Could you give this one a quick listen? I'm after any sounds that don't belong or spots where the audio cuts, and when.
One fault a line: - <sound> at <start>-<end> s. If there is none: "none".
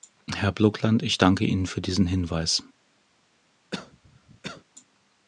- cough at 3.7-4.6 s